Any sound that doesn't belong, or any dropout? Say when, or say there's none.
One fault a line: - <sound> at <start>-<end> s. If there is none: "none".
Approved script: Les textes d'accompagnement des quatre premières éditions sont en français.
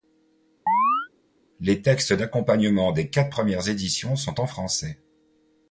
- chirp at 0.7-1.1 s